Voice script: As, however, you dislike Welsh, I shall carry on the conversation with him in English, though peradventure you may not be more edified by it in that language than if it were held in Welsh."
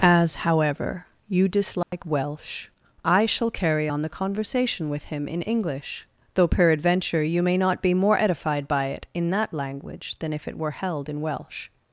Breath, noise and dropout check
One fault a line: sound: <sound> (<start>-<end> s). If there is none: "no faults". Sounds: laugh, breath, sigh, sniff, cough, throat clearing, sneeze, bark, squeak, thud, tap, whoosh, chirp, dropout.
sound: dropout (1.8-1.9 s)